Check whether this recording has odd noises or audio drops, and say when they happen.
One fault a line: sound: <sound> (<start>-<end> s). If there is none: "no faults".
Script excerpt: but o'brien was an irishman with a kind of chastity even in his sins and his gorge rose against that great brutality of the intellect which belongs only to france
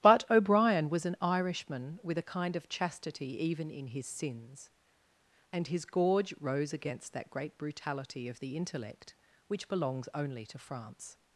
no faults